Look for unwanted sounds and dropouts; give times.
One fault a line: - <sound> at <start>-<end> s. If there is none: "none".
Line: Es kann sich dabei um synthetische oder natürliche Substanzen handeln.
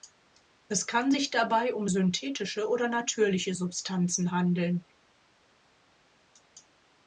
none